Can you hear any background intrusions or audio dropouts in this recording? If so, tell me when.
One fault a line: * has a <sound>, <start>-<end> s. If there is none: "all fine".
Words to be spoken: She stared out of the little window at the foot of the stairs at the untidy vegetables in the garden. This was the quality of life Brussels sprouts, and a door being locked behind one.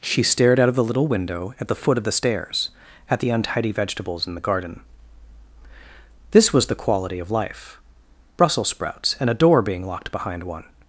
all fine